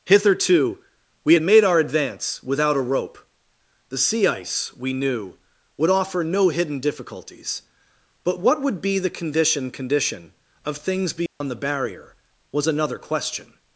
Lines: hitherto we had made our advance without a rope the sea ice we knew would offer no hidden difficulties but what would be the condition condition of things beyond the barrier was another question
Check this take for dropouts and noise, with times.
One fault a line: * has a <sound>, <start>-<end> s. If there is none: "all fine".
* has a dropout, 11.3-11.4 s